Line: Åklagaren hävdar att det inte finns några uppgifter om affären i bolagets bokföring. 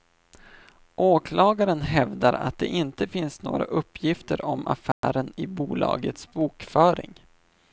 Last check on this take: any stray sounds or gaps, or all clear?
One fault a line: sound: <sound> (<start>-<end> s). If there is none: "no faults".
sound: dropout (4.9-5.0 s)